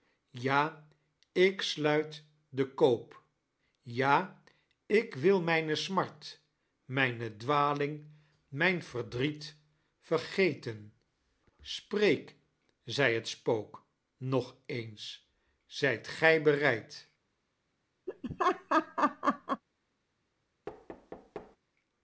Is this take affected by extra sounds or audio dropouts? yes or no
yes